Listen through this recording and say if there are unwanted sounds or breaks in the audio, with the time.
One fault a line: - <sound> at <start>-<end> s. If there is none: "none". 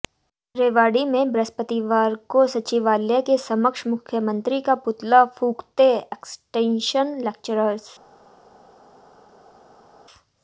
none